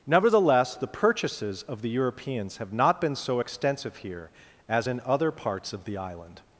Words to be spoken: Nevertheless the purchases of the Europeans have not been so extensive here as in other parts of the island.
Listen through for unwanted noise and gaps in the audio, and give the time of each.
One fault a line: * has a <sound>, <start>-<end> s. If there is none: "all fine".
all fine